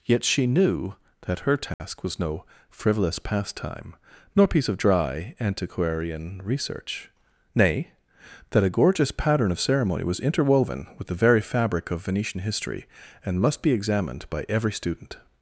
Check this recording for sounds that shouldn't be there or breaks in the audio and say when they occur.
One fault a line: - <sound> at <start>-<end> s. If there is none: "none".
- dropout at 1.7-1.8 s